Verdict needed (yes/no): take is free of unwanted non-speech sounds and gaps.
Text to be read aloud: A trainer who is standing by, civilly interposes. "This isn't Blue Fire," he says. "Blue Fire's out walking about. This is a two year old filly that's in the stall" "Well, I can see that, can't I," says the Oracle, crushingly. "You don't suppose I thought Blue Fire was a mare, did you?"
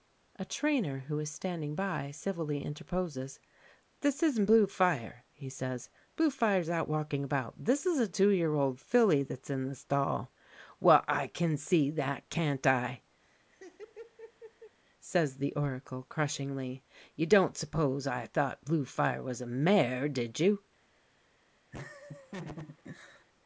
no